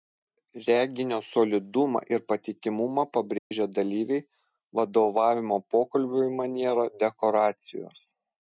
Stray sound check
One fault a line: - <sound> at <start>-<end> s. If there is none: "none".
- dropout at 3.4-3.5 s